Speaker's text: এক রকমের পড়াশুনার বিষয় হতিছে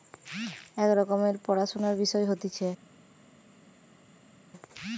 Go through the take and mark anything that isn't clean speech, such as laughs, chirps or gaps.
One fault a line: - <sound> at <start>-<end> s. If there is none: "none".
none